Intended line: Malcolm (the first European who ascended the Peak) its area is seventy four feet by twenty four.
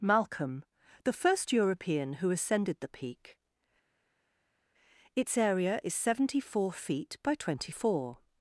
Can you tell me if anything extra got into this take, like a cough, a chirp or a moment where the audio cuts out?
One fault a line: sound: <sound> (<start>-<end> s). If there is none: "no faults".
no faults